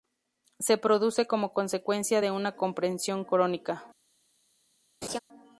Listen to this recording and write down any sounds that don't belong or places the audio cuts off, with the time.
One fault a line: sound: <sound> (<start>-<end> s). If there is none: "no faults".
sound: laugh (5.0-5.2 s)